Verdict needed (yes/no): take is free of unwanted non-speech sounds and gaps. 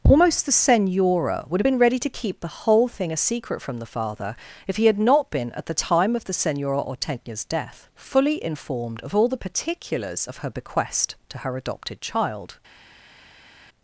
yes